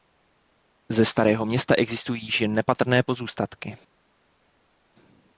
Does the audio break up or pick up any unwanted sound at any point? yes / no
no